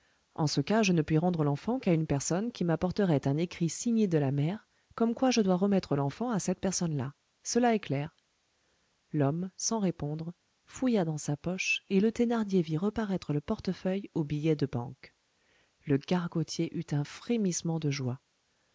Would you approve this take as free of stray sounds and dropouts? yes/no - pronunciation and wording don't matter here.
yes